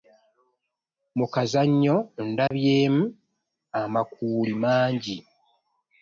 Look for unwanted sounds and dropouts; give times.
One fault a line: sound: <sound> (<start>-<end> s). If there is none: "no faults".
sound: dropout (2.5-2.5 s)